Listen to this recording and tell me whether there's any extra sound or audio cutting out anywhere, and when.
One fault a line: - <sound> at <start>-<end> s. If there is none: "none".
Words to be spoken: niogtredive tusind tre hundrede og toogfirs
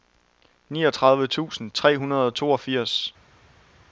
none